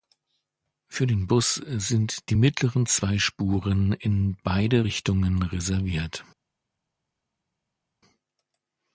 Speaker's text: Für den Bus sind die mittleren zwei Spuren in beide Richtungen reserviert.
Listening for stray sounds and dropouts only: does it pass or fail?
pass